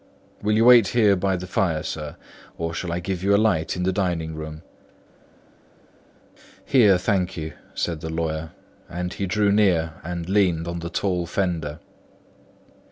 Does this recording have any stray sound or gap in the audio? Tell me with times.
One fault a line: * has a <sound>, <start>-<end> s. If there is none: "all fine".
all fine